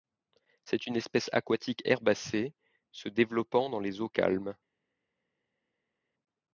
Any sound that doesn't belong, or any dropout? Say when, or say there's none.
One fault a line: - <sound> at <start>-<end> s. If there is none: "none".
none